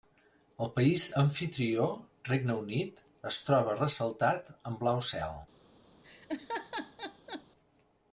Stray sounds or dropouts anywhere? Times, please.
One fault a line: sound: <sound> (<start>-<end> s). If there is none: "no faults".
sound: laugh (6.0-7.4 s)